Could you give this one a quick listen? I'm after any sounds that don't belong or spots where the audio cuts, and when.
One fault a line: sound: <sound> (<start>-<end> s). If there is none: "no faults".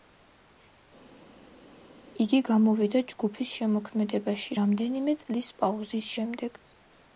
no faults